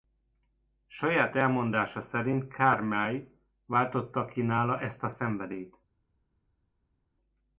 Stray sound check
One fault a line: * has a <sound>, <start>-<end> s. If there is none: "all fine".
all fine